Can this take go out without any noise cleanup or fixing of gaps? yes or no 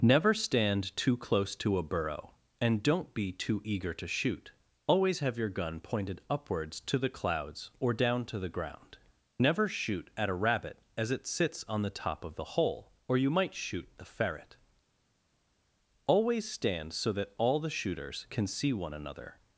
yes